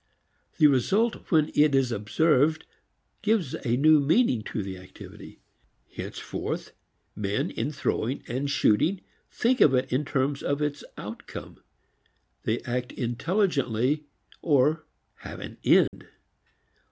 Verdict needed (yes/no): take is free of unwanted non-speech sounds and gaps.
no